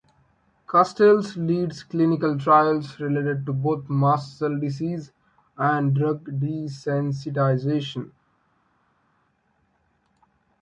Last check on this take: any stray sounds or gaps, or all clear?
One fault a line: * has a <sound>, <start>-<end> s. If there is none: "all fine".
all fine